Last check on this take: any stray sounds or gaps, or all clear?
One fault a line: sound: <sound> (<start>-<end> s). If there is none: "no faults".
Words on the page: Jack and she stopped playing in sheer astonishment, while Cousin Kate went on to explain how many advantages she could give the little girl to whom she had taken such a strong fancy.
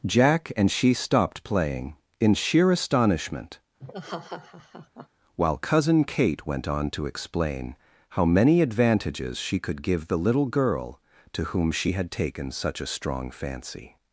sound: laugh (3.8-5.1 s)